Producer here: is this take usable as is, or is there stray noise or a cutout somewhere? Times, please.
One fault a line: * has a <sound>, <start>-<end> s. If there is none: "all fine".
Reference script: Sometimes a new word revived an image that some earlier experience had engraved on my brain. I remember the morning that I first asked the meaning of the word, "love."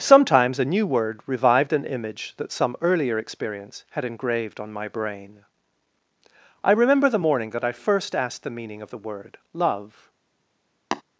* has a tap, 10.9-11.0 s